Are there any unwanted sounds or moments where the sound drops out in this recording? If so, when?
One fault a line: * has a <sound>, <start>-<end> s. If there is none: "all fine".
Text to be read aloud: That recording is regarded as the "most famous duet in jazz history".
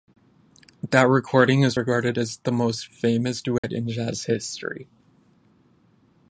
* has a dropout, 3.6-3.6 s